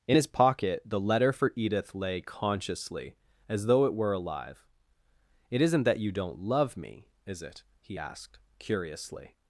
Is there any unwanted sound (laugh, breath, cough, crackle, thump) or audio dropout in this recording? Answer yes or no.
no